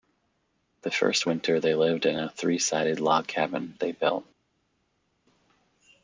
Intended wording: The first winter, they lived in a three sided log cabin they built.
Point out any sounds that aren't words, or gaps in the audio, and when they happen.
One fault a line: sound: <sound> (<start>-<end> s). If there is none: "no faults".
no faults